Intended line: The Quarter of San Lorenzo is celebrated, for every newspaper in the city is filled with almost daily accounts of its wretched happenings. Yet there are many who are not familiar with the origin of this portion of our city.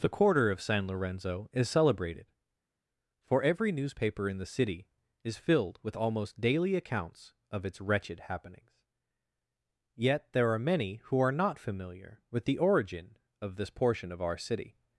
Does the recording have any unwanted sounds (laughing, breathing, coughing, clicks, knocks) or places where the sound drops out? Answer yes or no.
no